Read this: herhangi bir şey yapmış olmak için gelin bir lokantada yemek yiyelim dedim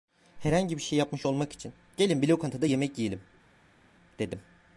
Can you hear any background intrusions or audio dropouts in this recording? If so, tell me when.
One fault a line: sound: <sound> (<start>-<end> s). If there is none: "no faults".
no faults